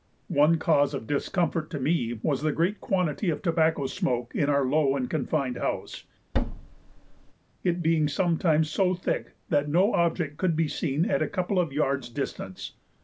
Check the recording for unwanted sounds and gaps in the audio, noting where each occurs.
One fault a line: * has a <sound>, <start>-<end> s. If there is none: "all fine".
* has a thud, 6.3-7.3 s